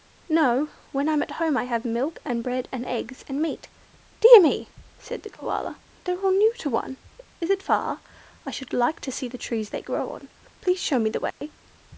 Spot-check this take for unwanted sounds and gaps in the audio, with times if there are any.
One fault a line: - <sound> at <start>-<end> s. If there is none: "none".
- dropout at 11.3-11.4 s